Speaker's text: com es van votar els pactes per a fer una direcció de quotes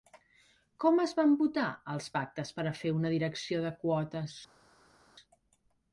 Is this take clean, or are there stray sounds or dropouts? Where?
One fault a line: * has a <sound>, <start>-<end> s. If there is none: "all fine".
all fine